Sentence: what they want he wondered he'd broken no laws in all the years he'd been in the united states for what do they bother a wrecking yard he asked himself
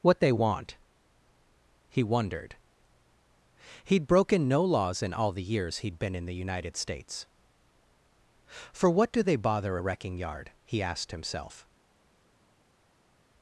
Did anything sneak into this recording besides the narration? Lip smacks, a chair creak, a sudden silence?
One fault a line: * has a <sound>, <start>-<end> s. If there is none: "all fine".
all fine